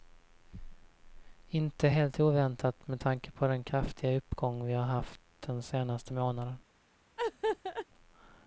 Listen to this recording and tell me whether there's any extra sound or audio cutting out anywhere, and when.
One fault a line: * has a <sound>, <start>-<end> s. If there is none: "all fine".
* has a laugh, 7.2-7.9 s